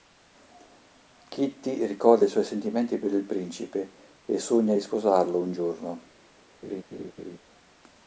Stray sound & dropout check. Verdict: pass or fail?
fail